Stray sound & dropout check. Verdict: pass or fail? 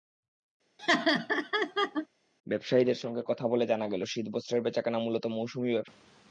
fail